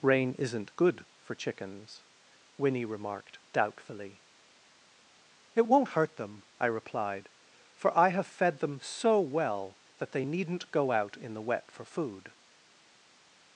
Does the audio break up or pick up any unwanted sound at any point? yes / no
no